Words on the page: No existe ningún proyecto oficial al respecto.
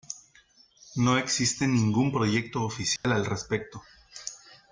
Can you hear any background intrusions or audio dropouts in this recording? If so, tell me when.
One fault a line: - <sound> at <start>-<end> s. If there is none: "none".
- dropout at 3.0-3.0 s